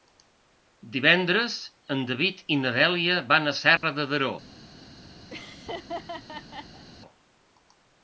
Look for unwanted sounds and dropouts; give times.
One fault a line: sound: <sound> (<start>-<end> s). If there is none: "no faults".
sound: dropout (3.8-3.8 s)
sound: laugh (5.3-6.9 s)